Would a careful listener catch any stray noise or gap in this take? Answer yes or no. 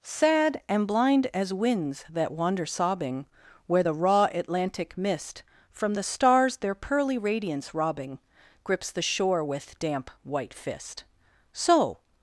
no